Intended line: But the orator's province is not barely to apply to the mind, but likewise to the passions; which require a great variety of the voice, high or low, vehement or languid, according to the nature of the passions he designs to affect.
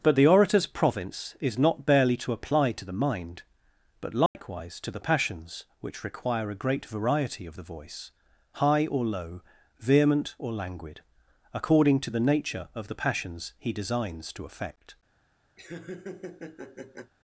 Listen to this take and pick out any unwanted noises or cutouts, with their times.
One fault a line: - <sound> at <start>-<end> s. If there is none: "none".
- dropout at 4.3-4.3 s
- laugh at 15.6-17.1 s